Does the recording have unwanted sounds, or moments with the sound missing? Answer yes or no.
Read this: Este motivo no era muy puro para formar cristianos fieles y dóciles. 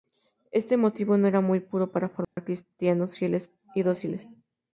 yes